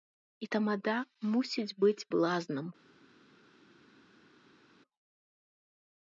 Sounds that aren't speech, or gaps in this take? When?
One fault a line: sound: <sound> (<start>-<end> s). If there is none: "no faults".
no faults